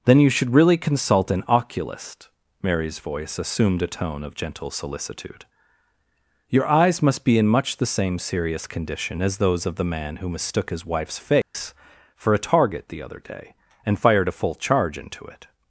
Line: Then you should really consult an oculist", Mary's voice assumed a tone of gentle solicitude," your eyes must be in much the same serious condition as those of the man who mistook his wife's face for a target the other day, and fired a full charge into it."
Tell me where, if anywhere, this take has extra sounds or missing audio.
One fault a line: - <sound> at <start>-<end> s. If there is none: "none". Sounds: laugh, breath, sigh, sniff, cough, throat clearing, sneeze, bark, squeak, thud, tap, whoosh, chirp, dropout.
- dropout at 11.4-11.5 s